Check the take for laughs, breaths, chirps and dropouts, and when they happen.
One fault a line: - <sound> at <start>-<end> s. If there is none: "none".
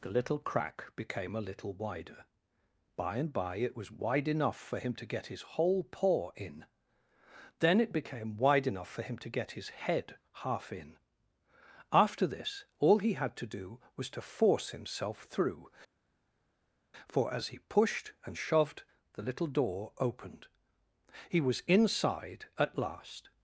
none